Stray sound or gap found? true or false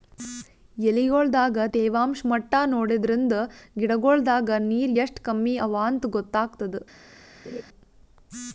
true